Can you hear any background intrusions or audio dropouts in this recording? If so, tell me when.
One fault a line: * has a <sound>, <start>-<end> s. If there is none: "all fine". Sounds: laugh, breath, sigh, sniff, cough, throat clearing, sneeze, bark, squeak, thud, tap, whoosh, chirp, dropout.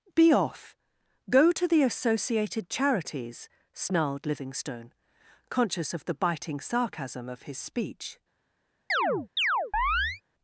* has a chirp, 8.9-10.2 s